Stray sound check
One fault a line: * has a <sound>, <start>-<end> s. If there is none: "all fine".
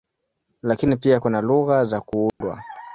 * has a dropout, 2.3-2.4 s